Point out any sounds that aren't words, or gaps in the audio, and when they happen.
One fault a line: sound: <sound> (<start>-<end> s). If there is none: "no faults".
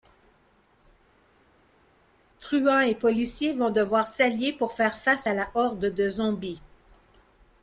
no faults